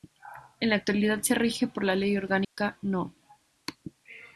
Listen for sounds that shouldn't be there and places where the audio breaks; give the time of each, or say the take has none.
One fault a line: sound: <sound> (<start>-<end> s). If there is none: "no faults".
sound: dropout (2.4-2.6 s)